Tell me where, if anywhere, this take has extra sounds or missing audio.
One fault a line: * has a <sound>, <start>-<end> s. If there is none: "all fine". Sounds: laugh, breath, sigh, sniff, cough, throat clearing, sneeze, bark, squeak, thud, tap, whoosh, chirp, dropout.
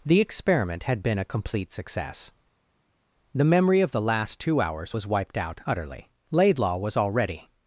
all fine